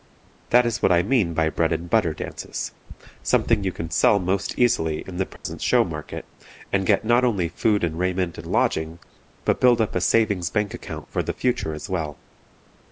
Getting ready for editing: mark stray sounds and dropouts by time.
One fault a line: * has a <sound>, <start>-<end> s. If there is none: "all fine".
* has a dropout, 5.4-5.4 s